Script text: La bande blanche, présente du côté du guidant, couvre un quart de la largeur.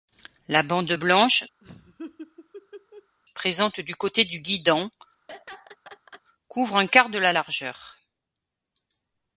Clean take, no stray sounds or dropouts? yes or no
no